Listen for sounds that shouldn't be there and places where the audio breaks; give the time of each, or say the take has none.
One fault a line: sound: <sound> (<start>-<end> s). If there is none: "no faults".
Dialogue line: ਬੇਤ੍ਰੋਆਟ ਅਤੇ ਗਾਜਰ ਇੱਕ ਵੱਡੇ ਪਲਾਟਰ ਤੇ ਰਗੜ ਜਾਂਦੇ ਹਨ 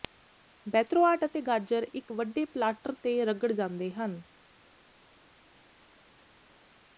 no faults